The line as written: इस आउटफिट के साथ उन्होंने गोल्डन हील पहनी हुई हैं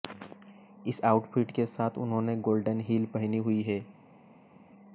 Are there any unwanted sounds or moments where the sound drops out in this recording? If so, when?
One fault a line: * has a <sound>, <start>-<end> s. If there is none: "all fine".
all fine